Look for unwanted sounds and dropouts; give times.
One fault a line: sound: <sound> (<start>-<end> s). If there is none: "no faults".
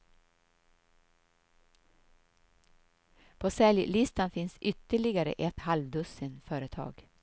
no faults